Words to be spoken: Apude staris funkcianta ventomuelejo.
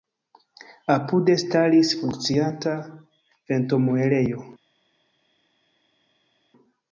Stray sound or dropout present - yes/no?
no